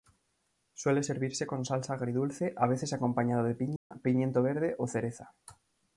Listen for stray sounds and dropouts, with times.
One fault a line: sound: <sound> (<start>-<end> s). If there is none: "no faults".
sound: dropout (3.8-3.9 s)